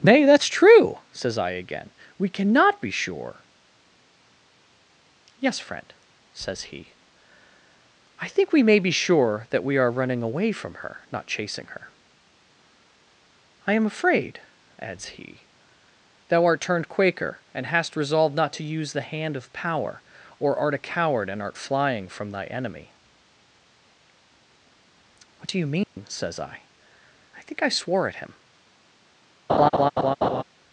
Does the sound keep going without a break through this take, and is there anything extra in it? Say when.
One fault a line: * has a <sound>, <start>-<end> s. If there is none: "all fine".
* has a dropout, 25.8-26.0 s
* has a laugh, 29.5-30.4 s